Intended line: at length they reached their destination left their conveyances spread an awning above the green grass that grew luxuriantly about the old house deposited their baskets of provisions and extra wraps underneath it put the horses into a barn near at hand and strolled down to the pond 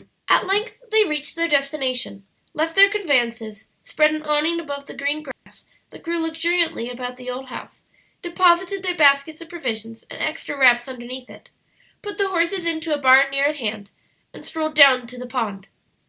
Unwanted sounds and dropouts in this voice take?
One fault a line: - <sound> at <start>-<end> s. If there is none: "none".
- dropout at 5.3-5.5 s